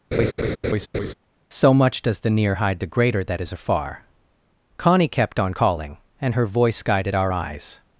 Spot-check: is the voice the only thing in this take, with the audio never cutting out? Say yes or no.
no